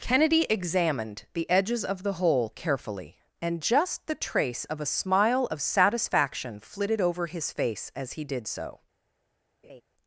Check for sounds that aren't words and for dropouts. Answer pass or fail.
fail